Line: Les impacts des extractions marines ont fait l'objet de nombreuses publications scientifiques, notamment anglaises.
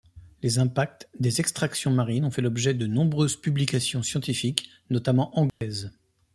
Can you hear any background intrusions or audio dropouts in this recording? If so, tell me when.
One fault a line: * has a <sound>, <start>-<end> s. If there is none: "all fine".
* has a dropout, 5.5-5.6 s